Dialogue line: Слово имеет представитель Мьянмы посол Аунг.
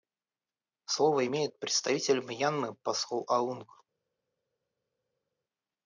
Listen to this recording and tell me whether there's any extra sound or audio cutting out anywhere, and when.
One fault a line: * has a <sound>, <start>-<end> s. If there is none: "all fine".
all fine